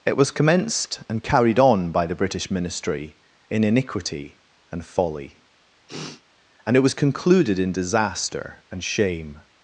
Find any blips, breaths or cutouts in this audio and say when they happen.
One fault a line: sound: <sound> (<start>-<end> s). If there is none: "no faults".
sound: sniff (5.9-6.2 s)